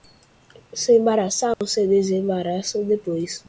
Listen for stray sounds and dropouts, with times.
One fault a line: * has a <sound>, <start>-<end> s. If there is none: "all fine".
* has a dropout, 1.5-1.6 s